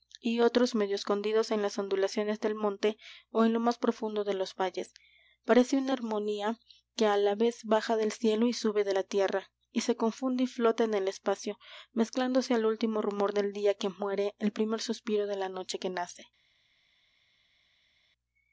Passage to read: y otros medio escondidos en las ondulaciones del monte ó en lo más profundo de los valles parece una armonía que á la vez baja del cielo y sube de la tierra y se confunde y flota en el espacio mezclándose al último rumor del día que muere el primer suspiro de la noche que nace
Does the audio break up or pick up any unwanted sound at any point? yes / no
no